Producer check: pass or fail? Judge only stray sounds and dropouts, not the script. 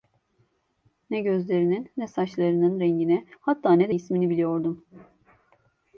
pass